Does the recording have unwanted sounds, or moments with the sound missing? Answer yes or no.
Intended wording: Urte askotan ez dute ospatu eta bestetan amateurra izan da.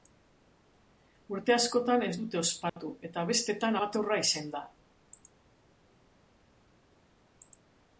yes